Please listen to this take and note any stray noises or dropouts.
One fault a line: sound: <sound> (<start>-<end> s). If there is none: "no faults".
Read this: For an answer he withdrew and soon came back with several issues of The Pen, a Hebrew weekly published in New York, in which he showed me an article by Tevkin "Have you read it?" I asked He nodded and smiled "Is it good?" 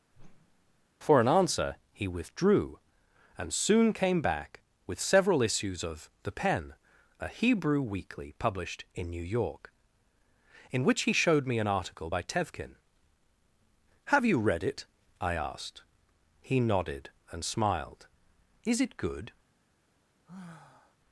sound: whoosh (0.1-0.9 s)
sound: sigh (20.3-21.0 s)